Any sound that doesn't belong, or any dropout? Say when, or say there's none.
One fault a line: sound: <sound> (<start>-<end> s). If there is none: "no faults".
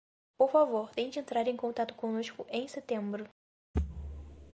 sound: thud (3.7-4.5 s)